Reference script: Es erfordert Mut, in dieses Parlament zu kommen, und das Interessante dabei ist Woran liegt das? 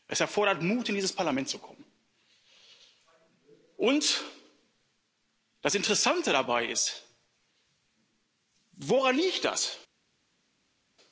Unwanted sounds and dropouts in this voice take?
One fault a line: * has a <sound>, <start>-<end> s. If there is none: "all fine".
all fine